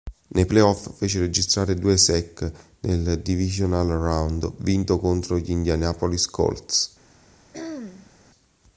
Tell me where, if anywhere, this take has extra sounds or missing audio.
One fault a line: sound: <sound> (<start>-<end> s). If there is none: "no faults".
sound: throat clearing (7.5-8.1 s)